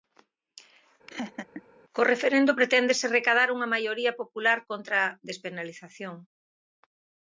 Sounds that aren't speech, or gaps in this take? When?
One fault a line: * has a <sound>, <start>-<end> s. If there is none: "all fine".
* has a laugh, 1.1-1.6 s